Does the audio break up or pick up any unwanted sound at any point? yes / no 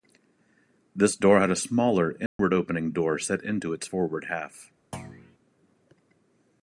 yes